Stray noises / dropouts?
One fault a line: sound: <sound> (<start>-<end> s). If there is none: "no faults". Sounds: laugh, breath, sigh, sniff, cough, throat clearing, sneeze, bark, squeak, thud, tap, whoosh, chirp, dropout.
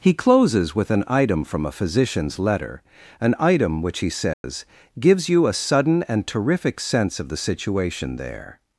sound: dropout (4.3-4.4 s)